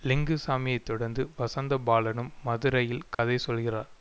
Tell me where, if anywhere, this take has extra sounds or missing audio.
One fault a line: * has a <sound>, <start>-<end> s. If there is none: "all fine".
* has a dropout, 3.1-3.2 s